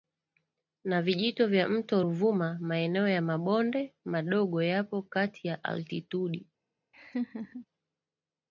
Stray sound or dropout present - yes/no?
yes